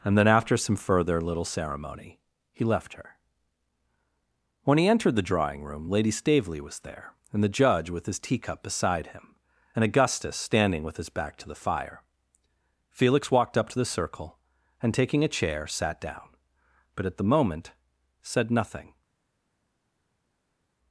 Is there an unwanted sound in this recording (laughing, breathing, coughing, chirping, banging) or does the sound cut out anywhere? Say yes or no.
no